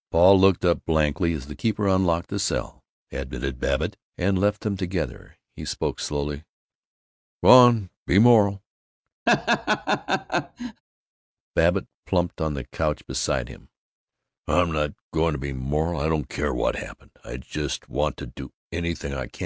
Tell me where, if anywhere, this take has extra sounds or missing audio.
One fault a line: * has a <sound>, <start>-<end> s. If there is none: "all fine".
* has a laugh, 9.3-10.8 s